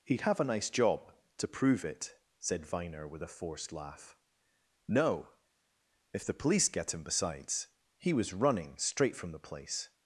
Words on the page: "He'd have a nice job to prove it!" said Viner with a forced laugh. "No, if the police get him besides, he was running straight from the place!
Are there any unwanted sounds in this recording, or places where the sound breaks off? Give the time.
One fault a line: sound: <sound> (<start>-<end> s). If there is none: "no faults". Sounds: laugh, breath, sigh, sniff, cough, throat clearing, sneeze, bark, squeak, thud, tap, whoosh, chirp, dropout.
no faults